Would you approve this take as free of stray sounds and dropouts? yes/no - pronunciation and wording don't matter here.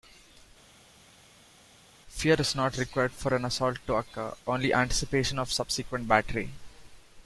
yes